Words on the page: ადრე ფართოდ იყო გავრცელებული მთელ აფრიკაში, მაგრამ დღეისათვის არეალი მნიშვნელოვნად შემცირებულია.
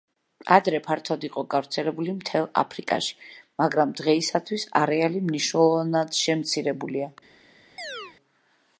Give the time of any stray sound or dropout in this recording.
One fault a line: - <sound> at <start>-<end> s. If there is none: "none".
- chirp at 7.8-8.2 s